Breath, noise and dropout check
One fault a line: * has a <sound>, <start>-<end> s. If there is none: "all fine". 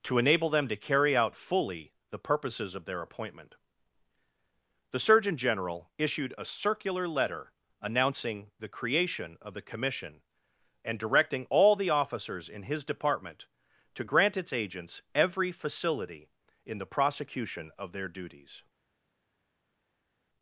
all fine